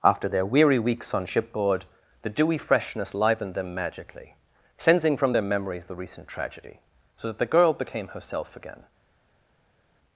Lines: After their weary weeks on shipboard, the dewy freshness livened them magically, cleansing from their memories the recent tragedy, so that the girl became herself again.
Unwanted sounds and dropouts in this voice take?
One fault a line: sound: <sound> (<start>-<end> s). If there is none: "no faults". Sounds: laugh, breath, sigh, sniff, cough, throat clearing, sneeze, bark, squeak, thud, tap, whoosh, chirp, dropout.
no faults